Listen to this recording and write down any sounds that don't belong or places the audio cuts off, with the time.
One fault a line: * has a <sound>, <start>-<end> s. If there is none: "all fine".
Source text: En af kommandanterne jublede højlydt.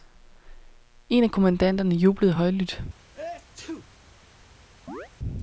* has a sneeze, 3.1-3.9 s
* has a chirp, 4.9-5.1 s